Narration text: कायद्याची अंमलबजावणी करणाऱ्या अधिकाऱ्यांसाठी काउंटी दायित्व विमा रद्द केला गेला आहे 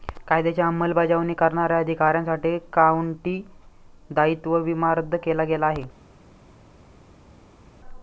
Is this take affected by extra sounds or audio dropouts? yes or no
no